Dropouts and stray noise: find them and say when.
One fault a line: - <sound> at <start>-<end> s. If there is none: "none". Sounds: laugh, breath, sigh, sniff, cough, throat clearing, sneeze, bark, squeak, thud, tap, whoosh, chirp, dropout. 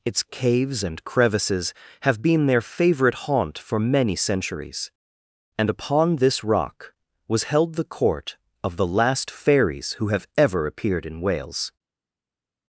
none